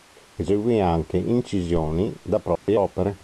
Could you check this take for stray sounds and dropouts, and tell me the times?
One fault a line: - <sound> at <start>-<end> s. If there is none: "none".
- dropout at 2.6-2.7 s